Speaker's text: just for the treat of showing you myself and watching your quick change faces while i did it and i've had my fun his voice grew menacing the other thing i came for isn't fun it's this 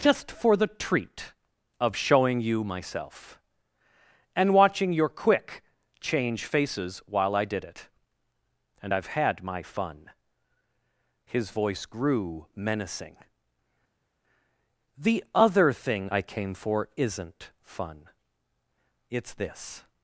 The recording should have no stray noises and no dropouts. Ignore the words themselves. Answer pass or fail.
pass